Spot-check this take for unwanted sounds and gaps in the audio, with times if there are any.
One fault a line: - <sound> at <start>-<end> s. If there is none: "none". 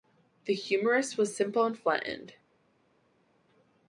none